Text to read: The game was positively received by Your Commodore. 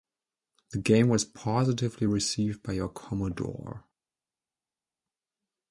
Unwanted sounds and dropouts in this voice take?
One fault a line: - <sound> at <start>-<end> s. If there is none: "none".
none